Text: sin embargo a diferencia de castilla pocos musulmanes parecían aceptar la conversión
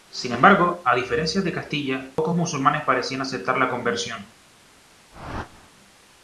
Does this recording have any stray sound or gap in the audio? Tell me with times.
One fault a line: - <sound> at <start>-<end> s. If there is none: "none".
- dropout at 2.1-2.2 s
- whoosh at 5.1-5.7 s